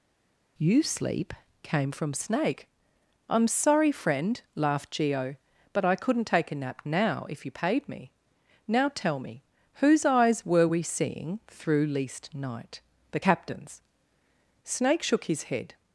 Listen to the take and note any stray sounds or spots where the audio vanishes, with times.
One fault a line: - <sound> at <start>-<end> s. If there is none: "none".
none